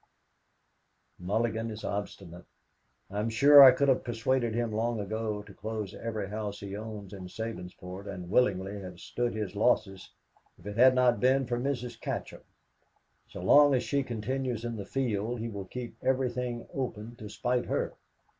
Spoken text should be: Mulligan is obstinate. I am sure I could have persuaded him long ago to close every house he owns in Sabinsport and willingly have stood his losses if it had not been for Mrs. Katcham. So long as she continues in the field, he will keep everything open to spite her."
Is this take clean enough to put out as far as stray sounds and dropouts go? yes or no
yes